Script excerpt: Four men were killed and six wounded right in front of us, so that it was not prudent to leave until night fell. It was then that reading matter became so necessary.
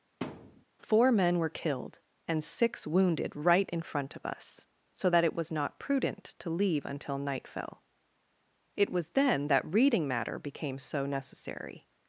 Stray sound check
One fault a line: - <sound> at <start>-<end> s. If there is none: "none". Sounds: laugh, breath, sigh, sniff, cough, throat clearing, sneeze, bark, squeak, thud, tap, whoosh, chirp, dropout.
- thud at 0.2-0.6 s